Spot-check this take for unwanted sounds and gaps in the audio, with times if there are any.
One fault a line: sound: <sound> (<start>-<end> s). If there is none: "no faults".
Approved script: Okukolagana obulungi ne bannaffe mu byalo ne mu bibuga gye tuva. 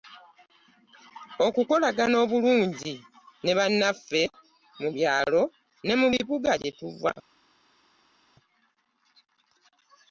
no faults